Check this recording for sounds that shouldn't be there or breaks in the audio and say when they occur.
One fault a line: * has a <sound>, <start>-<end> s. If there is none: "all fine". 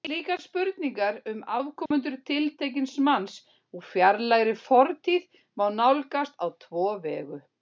* has a dropout, 1.9-1.9 s